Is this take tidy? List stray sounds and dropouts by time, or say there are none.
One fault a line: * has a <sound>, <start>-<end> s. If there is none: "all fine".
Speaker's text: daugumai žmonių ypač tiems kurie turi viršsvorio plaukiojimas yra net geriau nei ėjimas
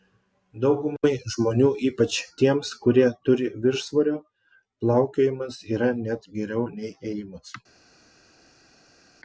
all fine